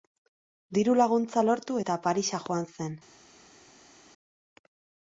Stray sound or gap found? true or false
false